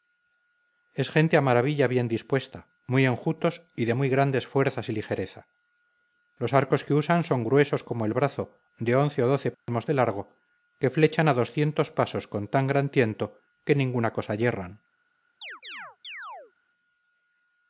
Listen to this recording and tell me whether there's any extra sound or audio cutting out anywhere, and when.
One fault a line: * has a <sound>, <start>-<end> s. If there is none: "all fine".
* has a dropout, 9.5-9.7 s
* has a chirp, 15.4-16.5 s